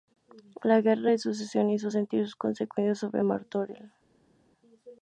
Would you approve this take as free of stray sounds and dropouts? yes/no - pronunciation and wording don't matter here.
yes